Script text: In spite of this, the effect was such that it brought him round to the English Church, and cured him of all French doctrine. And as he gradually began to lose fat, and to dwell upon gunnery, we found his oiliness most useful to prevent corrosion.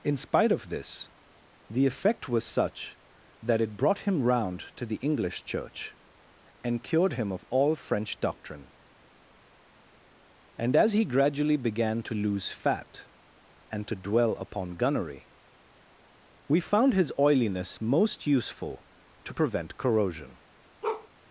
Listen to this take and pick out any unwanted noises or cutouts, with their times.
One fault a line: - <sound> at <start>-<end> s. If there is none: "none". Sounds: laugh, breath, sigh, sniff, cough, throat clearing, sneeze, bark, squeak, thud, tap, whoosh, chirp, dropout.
- bark at 20.8-21.1 s